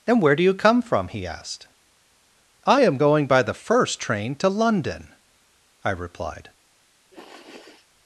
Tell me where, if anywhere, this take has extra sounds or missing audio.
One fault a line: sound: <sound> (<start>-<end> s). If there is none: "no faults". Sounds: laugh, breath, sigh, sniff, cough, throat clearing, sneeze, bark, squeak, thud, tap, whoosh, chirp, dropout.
sound: sniff (7.1-7.9 s)